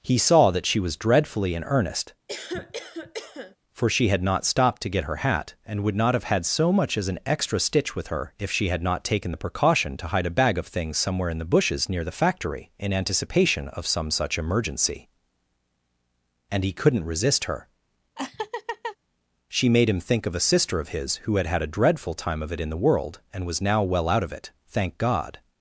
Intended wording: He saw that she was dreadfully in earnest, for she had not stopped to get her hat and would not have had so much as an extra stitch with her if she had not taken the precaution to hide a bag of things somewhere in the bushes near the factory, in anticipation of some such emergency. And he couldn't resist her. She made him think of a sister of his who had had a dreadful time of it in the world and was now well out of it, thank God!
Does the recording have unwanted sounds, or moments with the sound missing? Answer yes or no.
yes